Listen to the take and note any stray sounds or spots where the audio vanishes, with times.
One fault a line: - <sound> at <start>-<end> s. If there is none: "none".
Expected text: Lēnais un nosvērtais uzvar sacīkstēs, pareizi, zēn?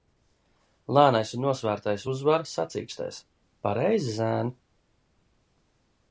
none